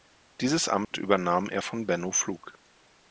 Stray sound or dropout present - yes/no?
yes